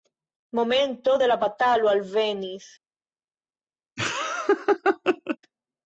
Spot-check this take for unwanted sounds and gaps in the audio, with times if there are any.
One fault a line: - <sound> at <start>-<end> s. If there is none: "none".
- laugh at 4.0-5.4 s